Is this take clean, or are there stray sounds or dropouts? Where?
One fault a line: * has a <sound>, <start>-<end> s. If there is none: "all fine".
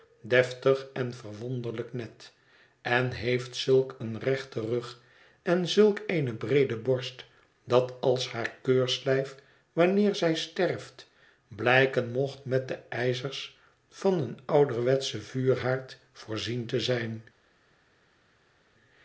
all fine